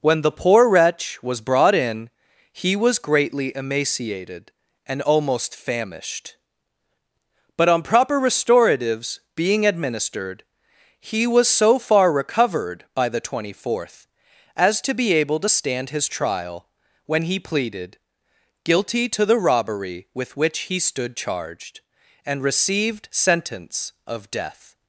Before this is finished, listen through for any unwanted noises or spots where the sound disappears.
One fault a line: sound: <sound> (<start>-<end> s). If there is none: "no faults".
no faults